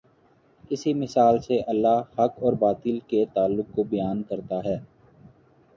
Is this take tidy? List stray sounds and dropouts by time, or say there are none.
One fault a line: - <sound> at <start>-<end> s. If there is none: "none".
none